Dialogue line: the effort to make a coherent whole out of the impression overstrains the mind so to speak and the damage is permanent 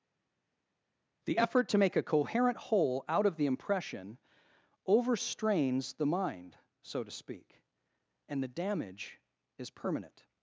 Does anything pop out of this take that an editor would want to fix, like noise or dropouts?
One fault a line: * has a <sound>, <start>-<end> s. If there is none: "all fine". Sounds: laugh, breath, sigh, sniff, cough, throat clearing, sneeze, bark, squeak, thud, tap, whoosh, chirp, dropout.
all fine